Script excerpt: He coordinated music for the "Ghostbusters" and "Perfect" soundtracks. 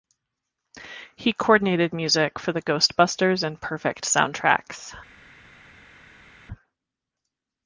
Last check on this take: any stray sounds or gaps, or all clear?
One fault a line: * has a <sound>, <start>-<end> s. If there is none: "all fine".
all fine